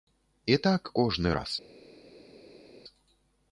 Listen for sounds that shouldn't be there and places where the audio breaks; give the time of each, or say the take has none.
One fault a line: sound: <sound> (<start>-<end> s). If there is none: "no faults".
no faults